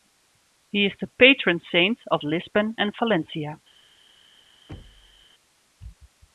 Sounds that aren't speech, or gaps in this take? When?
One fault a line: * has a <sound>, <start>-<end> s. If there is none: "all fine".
* has a thud, 4.7-5.3 s